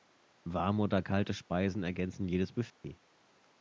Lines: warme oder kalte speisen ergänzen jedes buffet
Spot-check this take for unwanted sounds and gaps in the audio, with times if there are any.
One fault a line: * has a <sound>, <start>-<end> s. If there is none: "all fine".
* has a dropout, 2.7-2.8 s